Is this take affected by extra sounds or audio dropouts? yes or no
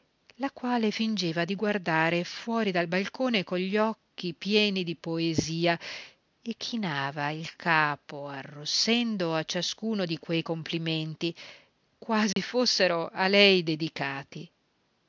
yes